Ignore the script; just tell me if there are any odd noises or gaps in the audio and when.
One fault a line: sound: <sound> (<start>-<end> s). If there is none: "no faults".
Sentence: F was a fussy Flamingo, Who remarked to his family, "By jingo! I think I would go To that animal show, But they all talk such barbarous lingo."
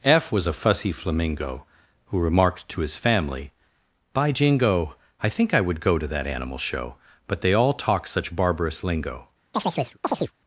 sound: chirp (9.5-10.3 s)